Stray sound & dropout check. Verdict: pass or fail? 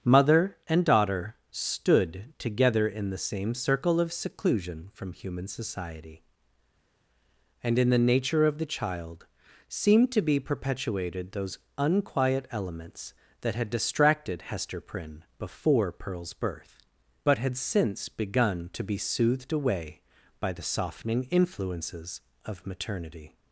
pass